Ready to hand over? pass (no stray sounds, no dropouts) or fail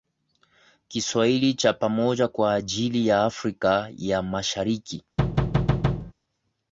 fail